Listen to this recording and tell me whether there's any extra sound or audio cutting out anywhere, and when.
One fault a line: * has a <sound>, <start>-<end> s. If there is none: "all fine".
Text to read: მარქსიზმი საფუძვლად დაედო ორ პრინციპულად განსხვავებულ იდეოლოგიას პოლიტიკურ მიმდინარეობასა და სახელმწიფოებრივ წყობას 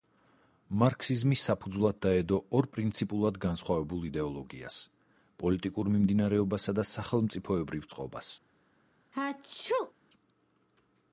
* has a sneeze, 9.1-9.9 s